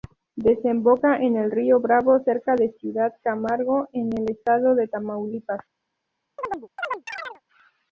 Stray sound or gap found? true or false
true